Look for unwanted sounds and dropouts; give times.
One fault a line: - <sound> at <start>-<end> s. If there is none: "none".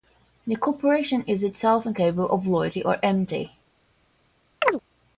- chirp at 4.6-4.8 s